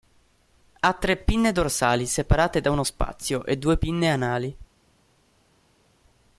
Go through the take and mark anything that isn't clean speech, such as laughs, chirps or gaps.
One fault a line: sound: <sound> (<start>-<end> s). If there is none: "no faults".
no faults